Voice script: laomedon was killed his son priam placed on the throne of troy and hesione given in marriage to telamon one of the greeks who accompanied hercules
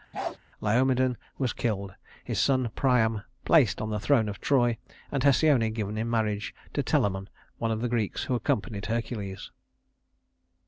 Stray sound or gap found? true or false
true